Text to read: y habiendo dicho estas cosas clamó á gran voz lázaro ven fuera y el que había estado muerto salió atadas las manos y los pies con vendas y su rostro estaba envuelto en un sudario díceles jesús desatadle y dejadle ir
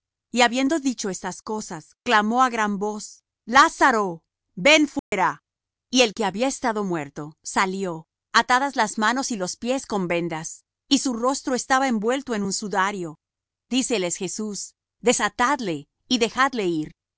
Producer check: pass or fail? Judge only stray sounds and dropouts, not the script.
fail